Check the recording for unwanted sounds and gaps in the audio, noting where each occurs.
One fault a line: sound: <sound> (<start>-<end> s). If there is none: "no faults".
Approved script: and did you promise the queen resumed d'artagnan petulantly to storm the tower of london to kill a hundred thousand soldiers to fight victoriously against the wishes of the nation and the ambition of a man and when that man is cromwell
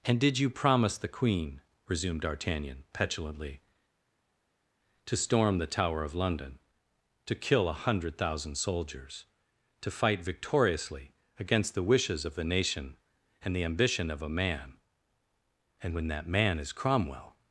no faults